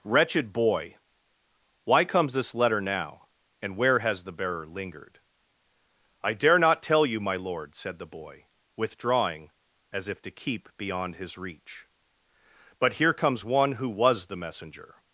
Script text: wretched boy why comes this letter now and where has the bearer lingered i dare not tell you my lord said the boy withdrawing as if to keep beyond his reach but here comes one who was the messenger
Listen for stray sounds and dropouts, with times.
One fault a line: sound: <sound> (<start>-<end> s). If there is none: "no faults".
no faults